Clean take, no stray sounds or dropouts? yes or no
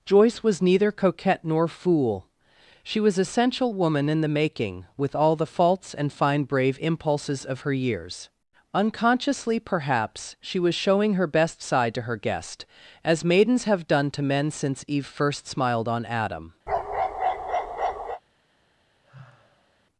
no